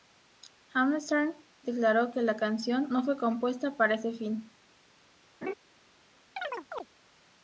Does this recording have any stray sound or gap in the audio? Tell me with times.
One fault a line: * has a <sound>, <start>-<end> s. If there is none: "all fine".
* has a laugh, 5.4-5.5 s
* has a chirp, 6.4-6.9 s